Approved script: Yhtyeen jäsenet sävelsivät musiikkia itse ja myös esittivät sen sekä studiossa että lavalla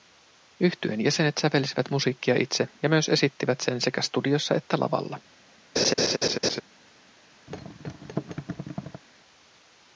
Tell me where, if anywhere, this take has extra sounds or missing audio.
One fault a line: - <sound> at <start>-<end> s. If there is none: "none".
- laugh at 5.8-6.6 s
- thud at 7.5-9.0 s